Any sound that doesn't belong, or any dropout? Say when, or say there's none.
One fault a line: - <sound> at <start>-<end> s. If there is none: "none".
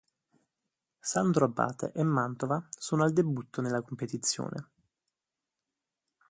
none